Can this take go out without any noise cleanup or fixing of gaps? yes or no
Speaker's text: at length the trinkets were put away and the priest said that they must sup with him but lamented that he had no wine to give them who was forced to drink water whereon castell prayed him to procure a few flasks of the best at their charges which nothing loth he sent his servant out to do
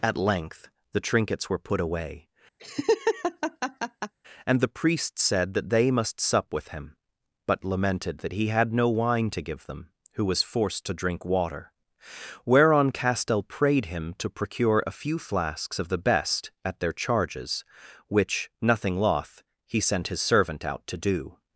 no